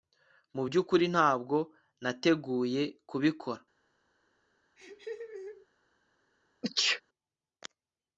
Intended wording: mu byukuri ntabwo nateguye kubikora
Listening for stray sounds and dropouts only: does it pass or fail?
fail